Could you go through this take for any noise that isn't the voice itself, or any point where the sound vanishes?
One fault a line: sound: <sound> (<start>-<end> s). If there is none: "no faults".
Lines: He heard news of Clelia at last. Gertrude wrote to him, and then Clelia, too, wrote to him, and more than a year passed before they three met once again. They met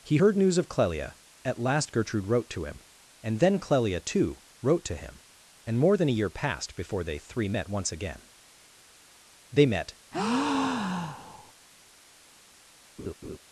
sound: breath (10.1-11.5 s)
sound: laugh (13.0-13.4 s)